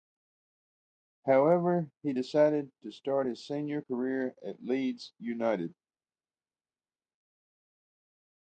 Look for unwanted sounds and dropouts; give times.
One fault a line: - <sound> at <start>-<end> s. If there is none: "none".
none